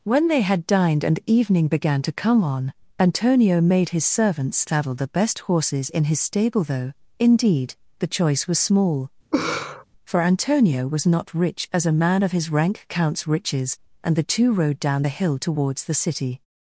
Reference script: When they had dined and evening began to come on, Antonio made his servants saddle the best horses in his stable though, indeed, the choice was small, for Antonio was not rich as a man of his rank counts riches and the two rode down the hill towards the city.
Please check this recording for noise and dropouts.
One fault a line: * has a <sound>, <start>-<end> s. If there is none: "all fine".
* has a laugh, 9.3-9.8 s